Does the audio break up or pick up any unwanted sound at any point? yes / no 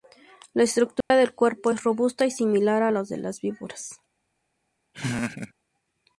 yes